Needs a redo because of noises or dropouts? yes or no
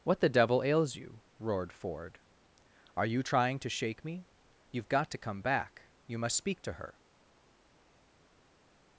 no